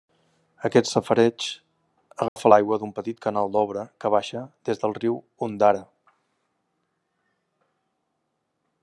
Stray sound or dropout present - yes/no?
yes